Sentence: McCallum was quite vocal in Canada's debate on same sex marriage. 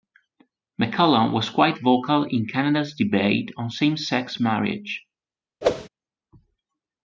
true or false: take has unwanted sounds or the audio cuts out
true